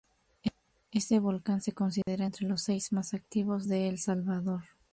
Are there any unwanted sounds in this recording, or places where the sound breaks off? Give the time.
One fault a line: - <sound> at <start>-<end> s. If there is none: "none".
- dropout at 2.0-2.1 s